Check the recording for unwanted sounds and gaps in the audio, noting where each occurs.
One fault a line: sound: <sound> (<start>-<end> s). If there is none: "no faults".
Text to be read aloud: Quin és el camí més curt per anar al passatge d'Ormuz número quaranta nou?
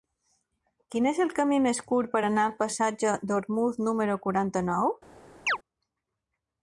sound: chirp (5.5-5.6 s)